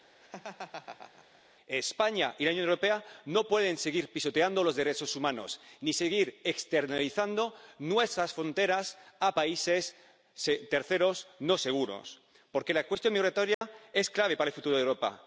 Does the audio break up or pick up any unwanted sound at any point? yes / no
yes